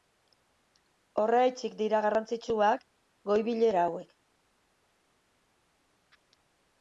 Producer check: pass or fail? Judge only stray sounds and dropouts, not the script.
pass